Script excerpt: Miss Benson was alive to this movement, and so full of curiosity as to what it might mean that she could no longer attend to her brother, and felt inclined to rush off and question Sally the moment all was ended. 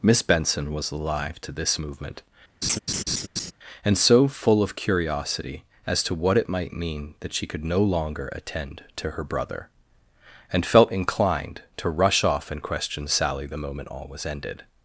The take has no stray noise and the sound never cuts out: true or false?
false